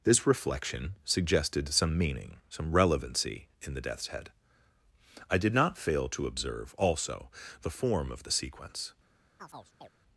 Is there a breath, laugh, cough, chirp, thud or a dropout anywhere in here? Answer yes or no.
yes